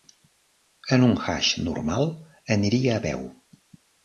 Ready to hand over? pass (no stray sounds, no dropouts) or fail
pass